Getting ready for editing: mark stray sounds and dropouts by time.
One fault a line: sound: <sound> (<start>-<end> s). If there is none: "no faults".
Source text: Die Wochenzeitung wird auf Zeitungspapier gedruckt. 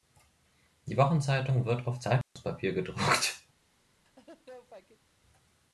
sound: dropout (2.2-2.4 s)
sound: laugh (4.1-5.1 s)